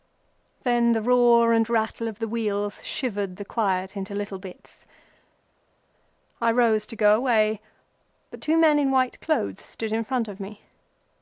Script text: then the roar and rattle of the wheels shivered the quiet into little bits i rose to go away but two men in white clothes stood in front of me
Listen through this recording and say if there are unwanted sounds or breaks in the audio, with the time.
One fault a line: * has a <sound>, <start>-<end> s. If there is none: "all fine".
all fine